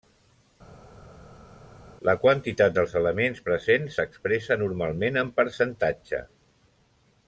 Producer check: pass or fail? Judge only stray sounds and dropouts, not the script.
pass